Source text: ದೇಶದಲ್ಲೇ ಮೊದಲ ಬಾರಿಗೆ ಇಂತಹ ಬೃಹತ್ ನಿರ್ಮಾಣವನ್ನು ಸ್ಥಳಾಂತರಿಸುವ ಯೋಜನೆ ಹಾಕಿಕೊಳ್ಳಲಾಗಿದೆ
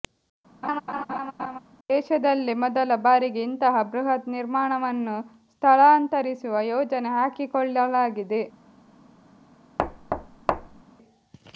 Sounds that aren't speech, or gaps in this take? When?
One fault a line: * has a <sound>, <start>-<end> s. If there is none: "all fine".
* has a laugh, 0.6-1.6 s
* has a thud, 9.8-10.8 s